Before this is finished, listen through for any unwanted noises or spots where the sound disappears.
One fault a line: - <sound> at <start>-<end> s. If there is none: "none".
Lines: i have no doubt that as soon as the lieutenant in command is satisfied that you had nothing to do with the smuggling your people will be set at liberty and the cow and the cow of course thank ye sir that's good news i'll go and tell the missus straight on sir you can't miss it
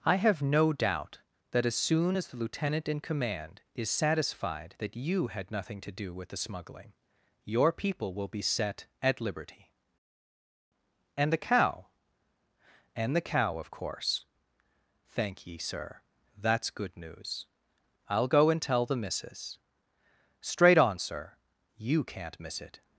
none